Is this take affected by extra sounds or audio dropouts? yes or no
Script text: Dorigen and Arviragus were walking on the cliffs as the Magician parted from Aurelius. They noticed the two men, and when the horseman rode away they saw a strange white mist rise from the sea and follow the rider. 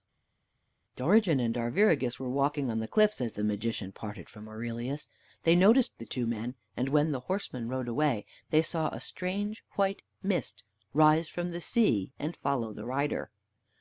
no